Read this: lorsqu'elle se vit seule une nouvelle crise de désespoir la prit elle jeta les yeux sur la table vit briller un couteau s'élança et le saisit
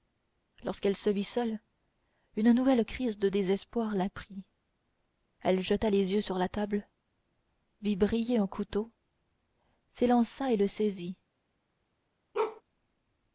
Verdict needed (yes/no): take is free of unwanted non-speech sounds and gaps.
no